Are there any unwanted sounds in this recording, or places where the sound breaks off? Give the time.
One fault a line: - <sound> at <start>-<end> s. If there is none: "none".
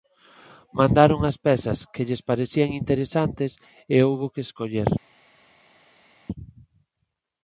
none